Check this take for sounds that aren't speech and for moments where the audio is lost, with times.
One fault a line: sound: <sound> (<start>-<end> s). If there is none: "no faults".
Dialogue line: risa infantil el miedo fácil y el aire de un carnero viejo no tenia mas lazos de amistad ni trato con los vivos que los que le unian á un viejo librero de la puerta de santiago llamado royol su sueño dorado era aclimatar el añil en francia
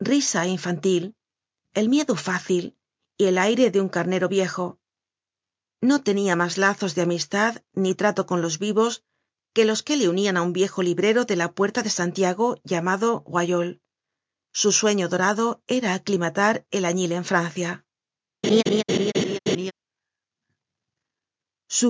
sound: laugh (18.4-19.7 s)